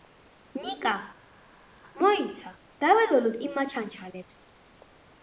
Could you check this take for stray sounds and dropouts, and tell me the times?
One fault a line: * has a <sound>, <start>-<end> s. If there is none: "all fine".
all fine